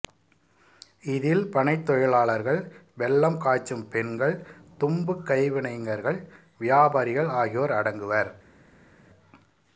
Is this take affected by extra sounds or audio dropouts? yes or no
no